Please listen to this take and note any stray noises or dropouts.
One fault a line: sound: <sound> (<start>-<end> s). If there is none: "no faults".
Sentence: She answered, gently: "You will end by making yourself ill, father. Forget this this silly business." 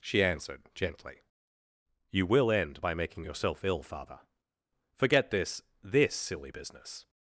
no faults